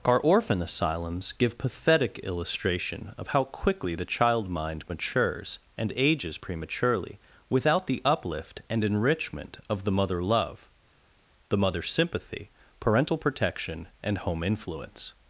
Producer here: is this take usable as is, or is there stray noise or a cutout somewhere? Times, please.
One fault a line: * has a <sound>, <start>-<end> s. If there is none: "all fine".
all fine